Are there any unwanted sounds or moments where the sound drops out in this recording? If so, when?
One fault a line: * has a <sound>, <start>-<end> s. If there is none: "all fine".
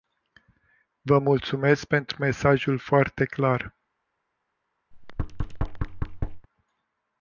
* has a thud, 4.9-6.5 s